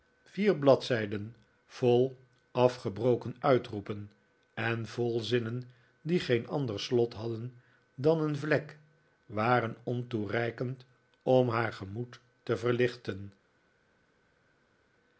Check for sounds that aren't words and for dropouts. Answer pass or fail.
pass